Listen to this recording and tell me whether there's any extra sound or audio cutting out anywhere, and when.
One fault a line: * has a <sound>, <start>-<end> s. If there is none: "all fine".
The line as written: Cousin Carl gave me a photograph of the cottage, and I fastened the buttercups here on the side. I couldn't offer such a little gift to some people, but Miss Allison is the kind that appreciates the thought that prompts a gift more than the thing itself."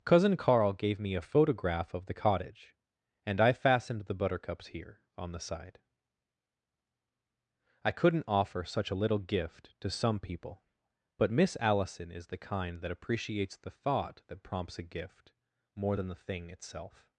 all fine